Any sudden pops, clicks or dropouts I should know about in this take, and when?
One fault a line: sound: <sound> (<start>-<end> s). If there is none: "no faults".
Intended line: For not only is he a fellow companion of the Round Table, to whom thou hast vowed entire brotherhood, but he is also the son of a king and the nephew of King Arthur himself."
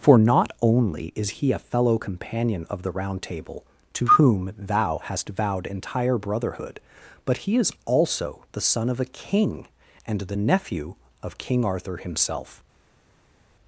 no faults